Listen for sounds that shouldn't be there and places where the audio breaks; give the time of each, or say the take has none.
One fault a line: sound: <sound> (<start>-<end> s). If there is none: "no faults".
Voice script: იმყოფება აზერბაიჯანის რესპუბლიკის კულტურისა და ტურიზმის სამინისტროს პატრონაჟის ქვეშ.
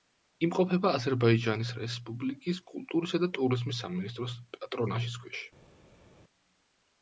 no faults